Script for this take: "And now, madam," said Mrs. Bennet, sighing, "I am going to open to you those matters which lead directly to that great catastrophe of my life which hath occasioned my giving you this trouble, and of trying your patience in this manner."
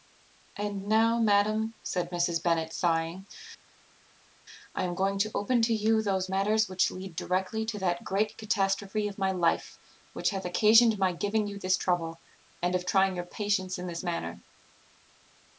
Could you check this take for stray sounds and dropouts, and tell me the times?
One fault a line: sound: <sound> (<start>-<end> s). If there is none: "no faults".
no faults